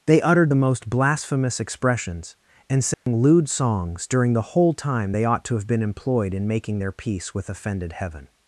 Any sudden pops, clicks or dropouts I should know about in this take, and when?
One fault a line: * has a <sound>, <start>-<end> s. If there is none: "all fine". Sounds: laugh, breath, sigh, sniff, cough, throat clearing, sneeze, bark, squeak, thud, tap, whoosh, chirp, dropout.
* has a dropout, 2.9-3.1 s